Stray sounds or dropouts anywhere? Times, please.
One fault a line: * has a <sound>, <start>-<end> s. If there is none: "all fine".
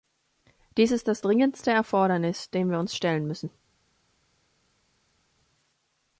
all fine